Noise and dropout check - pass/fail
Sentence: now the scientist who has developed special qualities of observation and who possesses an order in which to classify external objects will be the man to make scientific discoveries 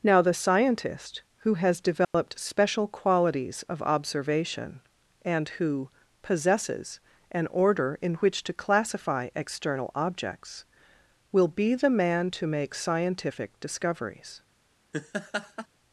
fail